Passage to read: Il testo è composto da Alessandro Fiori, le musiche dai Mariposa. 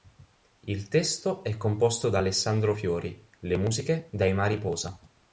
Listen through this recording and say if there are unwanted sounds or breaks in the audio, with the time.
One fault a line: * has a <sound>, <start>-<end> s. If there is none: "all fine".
all fine